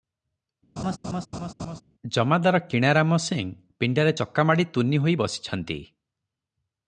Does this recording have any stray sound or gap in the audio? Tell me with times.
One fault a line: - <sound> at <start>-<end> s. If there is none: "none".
- laugh at 0.8-1.8 s